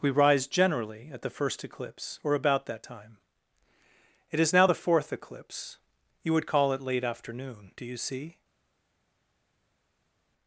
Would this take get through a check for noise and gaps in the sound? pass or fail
pass